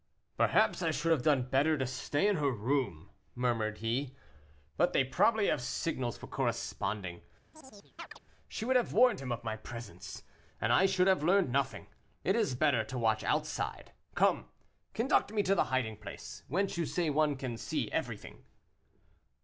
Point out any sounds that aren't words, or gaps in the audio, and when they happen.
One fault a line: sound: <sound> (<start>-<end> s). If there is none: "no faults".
sound: chirp (7.5-8.2 s)